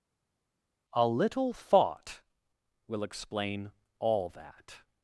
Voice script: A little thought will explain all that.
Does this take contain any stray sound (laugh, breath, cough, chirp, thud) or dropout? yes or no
no